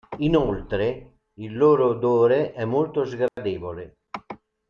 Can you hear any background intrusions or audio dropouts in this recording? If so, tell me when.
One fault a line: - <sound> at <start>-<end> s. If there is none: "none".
- dropout at 3.3-3.4 s